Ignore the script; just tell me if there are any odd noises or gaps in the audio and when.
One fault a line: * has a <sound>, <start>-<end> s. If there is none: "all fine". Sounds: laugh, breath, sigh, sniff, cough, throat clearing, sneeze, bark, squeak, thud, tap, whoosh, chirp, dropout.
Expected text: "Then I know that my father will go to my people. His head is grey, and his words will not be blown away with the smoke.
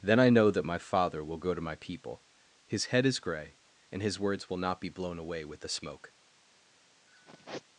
* has a sigh, 7.1-7.6 s